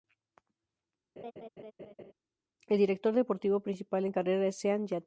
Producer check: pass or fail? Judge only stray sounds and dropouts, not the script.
fail